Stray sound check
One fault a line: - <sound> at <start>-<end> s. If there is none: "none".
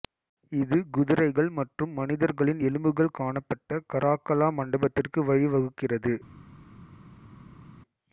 none